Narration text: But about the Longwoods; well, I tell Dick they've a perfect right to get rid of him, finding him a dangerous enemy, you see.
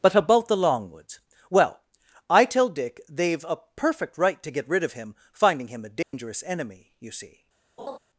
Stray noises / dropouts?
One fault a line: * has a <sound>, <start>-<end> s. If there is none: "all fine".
* has a dropout, 6.0-6.1 s
* has a laugh, 7.8-8.0 s